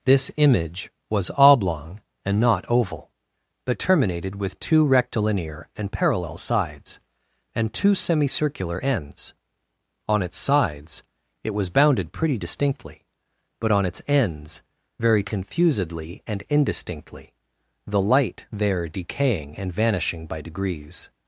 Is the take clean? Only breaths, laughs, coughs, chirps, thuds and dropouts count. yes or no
yes